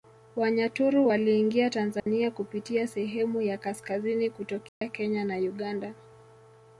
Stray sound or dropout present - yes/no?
yes